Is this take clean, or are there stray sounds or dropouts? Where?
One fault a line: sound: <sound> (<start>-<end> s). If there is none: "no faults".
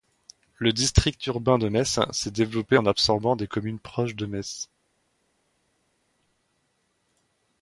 no faults